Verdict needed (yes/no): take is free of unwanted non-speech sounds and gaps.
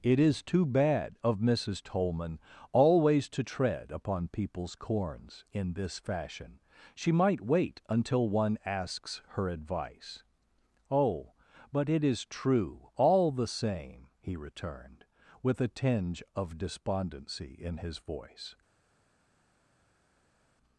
yes